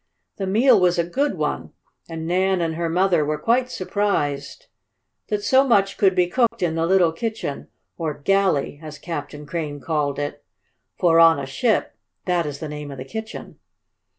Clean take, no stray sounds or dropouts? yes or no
no